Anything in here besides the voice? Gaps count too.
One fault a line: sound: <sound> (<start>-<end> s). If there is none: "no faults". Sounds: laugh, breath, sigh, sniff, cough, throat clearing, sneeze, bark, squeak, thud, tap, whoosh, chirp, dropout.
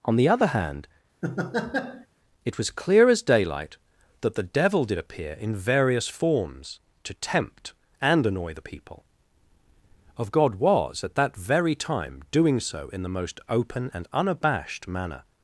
sound: laugh (1.2-2.1 s)